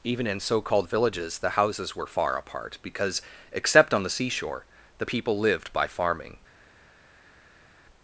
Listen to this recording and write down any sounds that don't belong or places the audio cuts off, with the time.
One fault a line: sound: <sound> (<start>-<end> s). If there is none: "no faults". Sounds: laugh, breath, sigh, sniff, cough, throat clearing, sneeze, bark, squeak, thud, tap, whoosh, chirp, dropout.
no faults